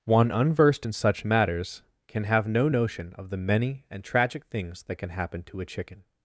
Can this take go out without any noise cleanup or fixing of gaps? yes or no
yes